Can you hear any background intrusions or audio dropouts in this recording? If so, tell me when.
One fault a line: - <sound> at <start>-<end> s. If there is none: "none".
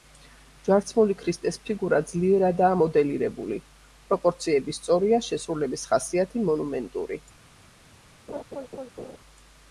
- laugh at 8.3-9.2 s